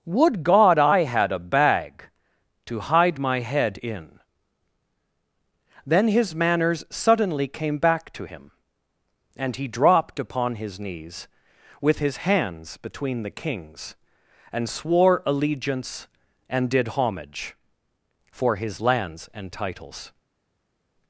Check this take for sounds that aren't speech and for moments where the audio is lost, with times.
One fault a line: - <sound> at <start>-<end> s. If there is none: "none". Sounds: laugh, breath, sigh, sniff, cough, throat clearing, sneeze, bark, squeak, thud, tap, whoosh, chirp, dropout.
none